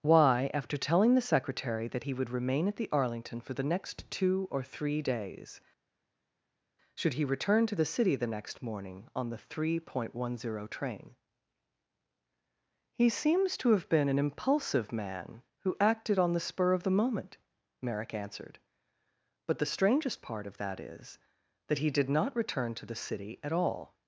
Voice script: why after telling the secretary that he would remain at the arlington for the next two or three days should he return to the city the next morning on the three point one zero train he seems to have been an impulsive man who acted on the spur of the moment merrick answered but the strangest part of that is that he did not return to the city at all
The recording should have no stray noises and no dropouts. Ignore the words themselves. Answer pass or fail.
pass